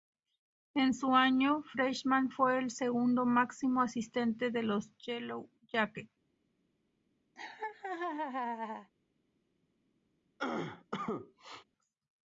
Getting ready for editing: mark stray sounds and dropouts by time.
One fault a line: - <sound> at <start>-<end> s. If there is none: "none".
- laugh at 7.4-8.9 s
- cough at 10.4-11.6 s